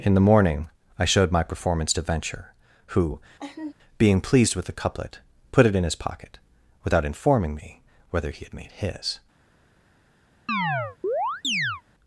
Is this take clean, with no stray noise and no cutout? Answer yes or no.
no